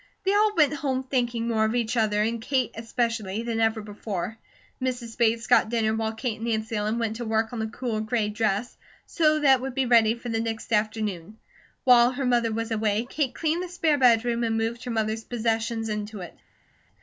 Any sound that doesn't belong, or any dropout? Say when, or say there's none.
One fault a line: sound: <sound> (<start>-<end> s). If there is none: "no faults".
no faults